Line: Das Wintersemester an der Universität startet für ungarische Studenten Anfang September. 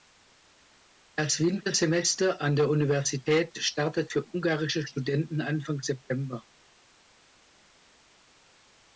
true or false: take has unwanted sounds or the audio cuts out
false